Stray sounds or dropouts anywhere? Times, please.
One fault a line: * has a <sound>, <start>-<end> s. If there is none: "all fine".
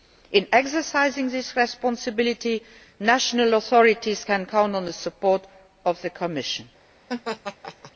* has a laugh, 7.1-7.9 s